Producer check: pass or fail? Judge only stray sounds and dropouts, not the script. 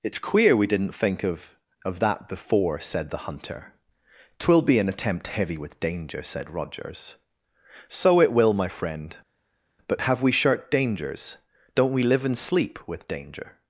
pass